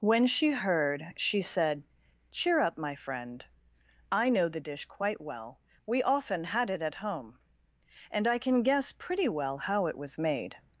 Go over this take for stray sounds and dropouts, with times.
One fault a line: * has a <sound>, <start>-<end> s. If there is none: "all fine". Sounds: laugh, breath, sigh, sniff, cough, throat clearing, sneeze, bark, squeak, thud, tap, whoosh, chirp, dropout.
all fine